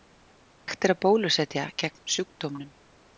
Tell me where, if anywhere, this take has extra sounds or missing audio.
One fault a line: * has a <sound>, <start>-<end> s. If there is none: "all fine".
all fine